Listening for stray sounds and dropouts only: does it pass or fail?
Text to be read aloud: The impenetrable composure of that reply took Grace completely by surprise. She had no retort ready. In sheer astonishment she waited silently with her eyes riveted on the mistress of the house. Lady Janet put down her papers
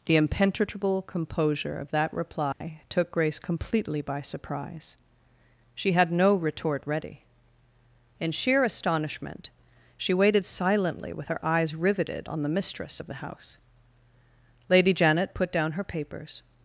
fail